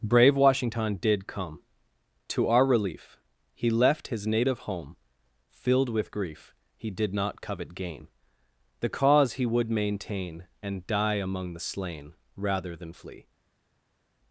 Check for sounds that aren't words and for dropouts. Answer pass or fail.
pass